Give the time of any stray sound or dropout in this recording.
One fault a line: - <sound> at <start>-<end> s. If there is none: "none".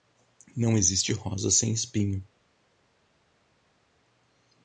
none